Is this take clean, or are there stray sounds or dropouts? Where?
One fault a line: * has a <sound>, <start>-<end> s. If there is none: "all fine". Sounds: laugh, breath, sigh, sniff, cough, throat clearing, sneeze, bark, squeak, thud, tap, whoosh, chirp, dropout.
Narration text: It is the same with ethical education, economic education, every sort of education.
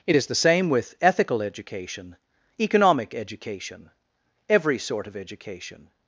all fine